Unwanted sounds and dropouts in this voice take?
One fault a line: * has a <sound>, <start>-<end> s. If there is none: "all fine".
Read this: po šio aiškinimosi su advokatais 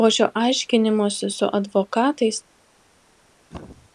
* has a throat clearing, 3.5-3.9 s